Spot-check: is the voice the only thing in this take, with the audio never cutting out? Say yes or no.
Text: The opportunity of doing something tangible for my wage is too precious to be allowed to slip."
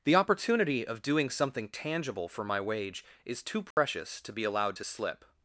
no